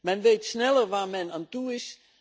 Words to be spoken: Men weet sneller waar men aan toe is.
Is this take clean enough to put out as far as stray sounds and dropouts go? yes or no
yes